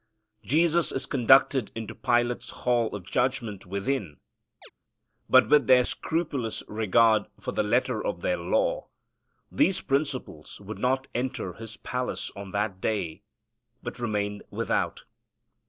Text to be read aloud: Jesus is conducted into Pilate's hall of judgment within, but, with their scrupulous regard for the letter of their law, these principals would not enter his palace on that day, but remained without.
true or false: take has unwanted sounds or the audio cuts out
true